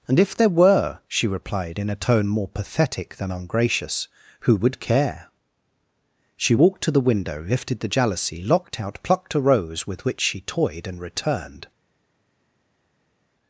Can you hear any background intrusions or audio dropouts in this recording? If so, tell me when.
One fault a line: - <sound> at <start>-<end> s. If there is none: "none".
none